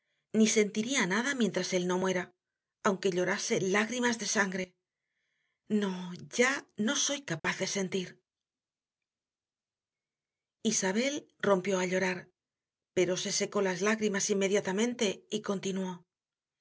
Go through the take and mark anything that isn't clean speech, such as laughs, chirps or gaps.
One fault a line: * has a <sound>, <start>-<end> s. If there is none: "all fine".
* has a dropout, 7.4-7.4 s